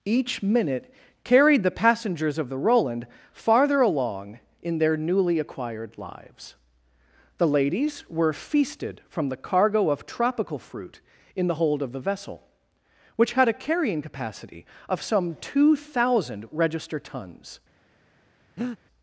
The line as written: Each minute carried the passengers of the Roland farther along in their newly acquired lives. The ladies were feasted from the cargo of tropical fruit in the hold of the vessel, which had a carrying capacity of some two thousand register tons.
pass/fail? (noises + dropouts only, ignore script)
fail